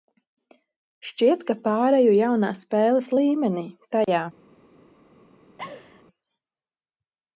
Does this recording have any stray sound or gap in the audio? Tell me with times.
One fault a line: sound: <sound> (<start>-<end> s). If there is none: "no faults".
sound: laugh (5.6-6.0 s)